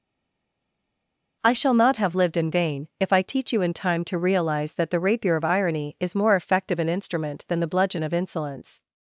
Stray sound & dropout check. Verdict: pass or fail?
pass